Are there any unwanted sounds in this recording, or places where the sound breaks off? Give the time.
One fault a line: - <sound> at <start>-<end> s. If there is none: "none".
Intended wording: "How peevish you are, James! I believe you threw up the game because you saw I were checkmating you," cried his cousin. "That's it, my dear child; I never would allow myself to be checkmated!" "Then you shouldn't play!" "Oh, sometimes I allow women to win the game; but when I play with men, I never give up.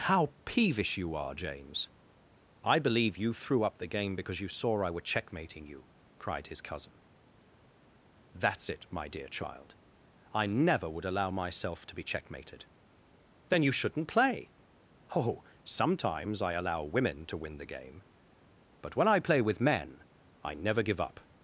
none